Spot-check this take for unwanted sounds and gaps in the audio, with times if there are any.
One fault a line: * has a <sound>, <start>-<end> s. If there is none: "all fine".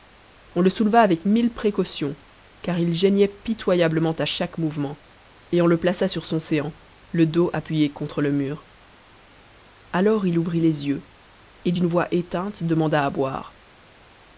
all fine